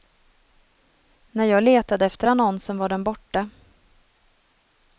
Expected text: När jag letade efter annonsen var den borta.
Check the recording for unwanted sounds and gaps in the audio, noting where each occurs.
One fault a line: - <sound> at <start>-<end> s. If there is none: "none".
none